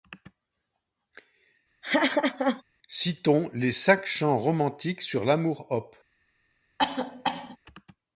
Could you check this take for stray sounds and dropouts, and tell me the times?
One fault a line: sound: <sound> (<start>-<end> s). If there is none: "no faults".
sound: laugh (1.8-2.6 s)
sound: cough (6.8-7.6 s)